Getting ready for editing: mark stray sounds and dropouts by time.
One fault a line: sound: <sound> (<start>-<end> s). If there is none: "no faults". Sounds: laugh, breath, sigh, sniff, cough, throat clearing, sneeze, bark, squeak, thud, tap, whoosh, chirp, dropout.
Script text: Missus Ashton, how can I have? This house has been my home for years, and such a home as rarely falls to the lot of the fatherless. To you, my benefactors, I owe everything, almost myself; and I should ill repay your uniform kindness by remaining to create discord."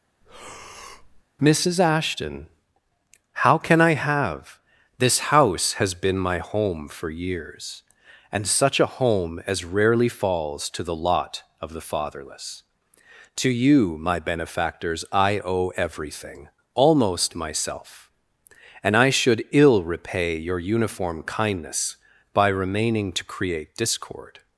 sound: breath (0.2-1.2 s)